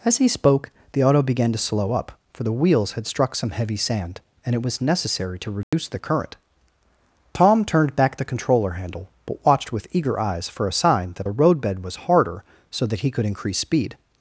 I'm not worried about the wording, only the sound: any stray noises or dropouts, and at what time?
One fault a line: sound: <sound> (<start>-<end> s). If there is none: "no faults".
sound: dropout (5.6-5.7 s)